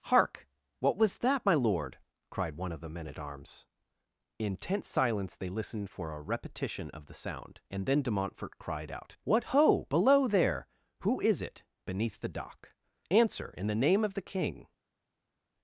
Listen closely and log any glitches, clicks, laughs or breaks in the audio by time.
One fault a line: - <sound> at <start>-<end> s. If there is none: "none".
none